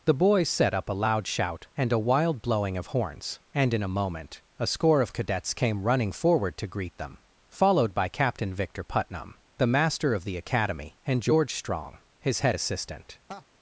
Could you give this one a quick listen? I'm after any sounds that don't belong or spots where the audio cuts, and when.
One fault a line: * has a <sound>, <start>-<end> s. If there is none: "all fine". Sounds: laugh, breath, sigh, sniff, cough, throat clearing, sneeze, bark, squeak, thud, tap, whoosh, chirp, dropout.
* has a laugh, 13.3-13.4 s